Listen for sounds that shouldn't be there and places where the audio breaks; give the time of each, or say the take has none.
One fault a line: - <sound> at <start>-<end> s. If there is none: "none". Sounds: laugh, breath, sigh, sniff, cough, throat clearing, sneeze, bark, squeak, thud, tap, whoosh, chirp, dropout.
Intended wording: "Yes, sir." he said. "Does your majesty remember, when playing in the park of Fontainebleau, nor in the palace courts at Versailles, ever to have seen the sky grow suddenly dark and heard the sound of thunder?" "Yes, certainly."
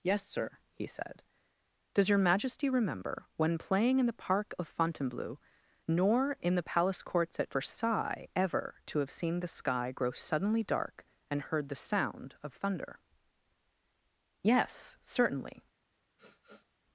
- sniff at 16.2-16.7 s